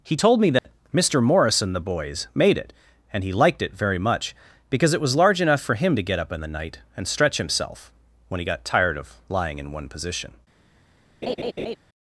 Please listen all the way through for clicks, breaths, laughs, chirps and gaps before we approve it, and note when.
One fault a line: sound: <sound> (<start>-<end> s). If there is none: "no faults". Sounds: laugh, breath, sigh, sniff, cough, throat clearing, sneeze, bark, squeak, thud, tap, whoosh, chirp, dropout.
sound: dropout (0.6-0.6 s)
sound: laugh (11.2-11.8 s)